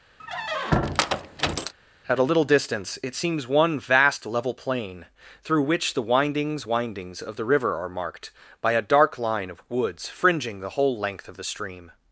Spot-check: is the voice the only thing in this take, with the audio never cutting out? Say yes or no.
no